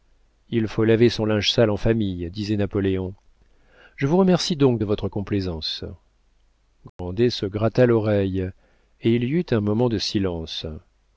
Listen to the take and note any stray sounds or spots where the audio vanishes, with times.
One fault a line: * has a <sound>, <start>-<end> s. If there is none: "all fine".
* has a dropout, 6.9-7.0 s